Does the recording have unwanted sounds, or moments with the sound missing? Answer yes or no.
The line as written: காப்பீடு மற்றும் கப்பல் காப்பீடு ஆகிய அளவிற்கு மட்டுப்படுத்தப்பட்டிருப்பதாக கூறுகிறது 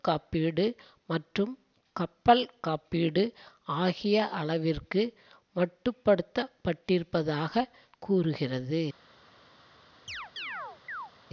yes